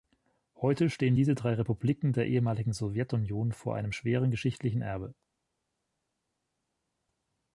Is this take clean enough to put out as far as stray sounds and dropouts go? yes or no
yes